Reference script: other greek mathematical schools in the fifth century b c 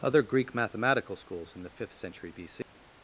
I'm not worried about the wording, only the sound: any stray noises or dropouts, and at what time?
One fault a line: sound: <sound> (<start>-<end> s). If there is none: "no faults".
sound: dropout (2.6-2.7 s)